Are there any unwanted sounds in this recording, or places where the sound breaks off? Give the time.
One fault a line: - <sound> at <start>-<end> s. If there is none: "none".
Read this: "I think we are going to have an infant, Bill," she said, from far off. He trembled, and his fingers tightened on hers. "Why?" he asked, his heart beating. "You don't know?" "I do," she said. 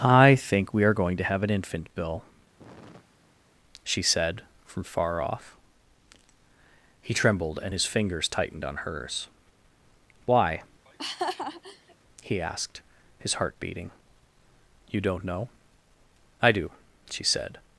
- sigh at 2.6-3.6 s
- laugh at 10.9-12.0 s